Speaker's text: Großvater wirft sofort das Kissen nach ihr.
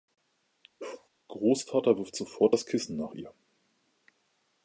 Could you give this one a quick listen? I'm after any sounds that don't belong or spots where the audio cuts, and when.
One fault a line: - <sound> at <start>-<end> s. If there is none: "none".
- bark at 0.8-1.1 s